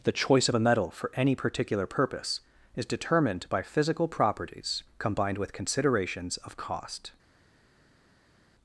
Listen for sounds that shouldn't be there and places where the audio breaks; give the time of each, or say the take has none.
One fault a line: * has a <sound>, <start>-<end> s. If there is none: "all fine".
all fine